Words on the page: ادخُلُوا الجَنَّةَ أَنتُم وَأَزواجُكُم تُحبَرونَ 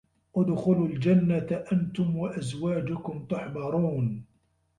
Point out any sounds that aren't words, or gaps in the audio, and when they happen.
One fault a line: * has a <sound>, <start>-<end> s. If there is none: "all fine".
all fine